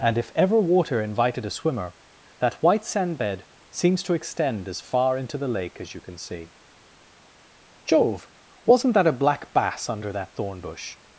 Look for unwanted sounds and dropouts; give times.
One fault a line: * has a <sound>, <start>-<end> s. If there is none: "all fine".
all fine